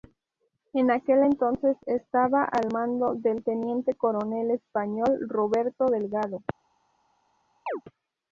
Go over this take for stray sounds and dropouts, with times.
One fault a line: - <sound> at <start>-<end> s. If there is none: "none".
- chirp at 7.7-7.8 s